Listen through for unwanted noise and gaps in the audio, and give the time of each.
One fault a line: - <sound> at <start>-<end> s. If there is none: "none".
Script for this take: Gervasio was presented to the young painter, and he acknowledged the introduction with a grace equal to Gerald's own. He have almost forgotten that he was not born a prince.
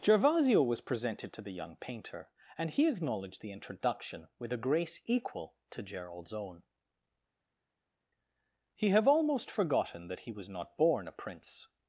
none